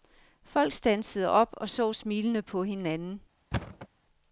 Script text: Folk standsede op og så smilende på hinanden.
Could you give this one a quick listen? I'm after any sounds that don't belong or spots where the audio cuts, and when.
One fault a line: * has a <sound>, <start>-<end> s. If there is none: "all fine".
* has a thud, 3.5-3.9 s